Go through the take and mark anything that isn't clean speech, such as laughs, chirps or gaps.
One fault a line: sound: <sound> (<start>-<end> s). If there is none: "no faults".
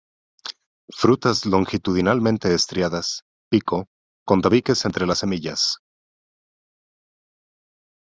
no faults